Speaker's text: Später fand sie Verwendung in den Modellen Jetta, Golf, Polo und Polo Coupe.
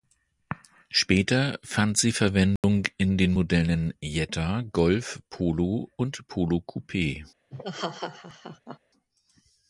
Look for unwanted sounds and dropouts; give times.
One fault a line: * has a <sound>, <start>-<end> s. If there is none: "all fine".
* has a dropout, 2.6-2.6 s
* has a laugh, 7.5-8.8 s